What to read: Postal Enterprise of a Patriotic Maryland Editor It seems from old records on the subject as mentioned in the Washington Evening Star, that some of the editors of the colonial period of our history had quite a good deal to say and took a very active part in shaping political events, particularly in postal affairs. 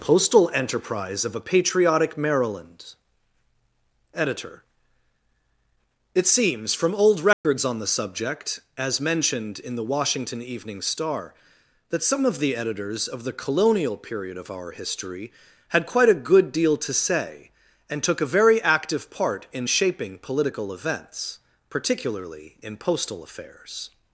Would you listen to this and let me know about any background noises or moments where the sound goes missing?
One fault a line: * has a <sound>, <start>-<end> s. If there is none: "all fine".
* has a dropout, 7.3-7.4 s